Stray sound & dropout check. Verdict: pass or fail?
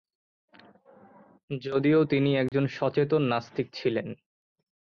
fail